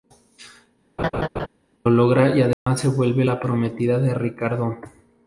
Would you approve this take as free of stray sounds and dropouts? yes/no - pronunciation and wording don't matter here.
no